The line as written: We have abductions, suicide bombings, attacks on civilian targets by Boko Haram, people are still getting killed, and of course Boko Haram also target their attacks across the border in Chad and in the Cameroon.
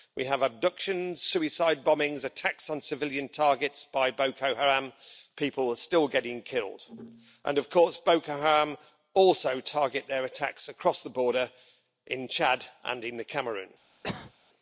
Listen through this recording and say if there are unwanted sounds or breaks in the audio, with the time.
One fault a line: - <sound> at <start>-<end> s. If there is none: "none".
- cough at 14.0-14.3 s